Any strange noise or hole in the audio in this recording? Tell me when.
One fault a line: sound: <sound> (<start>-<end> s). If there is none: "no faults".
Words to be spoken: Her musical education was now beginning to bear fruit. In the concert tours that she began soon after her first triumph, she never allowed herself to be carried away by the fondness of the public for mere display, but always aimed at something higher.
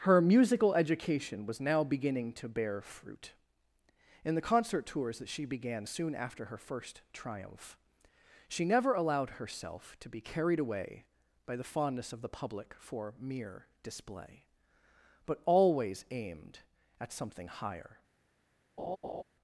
sound: laugh (18.8-19.2 s)